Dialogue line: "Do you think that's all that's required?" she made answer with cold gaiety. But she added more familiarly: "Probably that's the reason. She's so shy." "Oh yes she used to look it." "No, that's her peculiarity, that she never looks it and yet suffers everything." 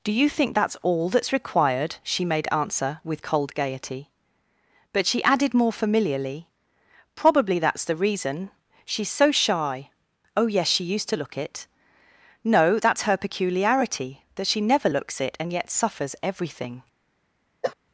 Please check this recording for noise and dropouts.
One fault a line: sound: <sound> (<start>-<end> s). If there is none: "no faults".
sound: cough (17.6-17.8 s)